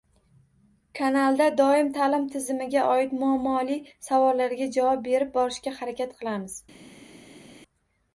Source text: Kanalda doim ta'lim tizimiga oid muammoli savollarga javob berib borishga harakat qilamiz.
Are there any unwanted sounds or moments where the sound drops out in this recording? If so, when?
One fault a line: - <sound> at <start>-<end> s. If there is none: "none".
none